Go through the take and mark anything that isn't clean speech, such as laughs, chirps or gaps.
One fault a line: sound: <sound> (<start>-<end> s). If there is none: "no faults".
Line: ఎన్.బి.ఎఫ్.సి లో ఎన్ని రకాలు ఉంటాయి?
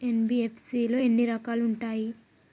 no faults